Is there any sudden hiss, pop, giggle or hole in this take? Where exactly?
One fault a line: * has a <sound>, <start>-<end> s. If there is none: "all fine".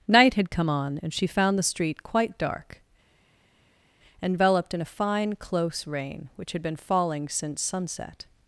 all fine